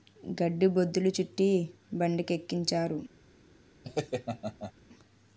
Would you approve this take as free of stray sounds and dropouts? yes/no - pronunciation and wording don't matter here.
no